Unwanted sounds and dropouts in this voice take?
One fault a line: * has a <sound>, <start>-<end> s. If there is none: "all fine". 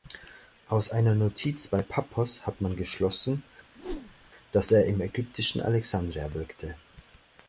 * has a whoosh, 3.7-4.3 s